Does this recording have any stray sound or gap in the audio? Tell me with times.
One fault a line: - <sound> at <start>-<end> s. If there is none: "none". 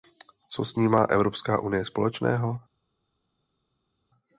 none